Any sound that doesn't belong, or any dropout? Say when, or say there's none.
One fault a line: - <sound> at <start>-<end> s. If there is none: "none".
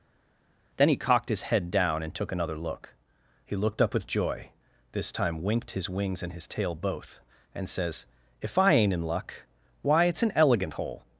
none